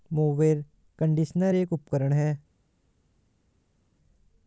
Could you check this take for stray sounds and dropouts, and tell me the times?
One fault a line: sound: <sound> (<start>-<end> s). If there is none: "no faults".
no faults